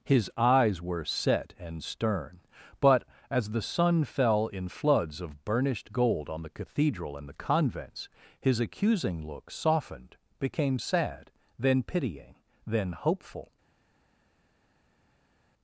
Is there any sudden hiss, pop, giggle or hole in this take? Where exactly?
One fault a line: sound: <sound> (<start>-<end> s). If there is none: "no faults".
no faults